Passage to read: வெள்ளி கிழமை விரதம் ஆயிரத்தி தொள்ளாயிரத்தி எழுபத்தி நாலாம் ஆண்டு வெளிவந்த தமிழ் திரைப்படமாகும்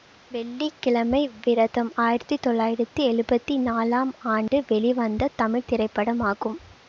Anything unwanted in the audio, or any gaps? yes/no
yes